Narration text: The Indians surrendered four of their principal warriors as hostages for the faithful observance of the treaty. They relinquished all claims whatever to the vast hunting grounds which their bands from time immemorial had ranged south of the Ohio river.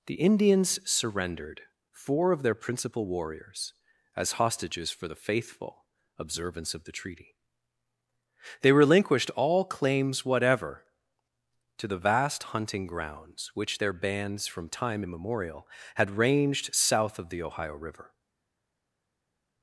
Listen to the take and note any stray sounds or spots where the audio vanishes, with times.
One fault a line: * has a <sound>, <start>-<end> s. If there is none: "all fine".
all fine